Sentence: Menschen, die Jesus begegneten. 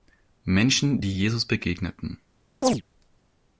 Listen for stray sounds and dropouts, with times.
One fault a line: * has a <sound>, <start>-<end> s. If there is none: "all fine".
* has a chirp, 2.6-2.8 s